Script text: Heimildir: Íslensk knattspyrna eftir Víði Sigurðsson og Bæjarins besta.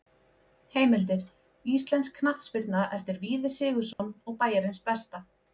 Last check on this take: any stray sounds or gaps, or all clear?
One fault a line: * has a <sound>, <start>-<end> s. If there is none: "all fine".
* has a dropout, 3.9-4.0 s